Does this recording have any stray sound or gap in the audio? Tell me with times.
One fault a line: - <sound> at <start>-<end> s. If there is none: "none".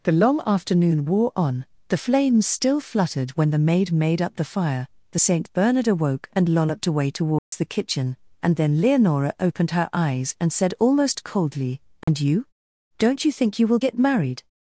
- dropout at 7.4-7.5 s
- dropout at 12.0-12.1 s